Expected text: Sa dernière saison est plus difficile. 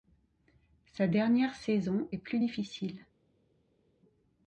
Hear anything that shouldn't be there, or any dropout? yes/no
no